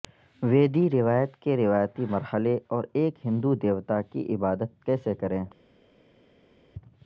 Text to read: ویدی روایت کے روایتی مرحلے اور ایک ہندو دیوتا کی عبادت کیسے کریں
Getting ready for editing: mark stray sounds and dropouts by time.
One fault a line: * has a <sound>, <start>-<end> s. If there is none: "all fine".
all fine